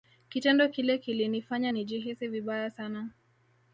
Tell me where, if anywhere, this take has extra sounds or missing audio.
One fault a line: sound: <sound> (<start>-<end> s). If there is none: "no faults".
no faults